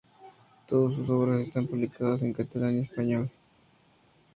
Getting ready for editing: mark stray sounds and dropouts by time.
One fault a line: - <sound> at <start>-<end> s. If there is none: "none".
none